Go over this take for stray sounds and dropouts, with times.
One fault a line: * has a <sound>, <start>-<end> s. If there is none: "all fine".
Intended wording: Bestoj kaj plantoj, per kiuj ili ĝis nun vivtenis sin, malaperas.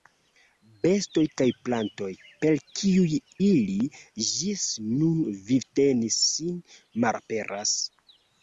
all fine